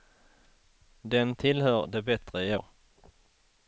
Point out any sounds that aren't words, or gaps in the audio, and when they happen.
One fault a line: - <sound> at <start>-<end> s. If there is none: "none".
none